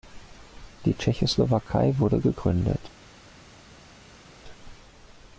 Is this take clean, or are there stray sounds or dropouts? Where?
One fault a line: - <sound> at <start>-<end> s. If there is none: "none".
none